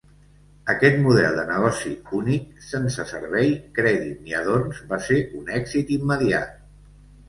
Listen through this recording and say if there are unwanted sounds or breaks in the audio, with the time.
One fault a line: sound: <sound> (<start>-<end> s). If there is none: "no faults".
no faults